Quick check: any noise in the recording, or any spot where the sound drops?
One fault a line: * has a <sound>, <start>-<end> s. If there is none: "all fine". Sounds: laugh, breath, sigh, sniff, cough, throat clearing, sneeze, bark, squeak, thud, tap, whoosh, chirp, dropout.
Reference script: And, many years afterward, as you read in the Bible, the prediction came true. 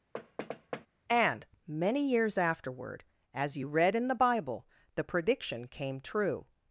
* has a thud, 0.1-0.9 s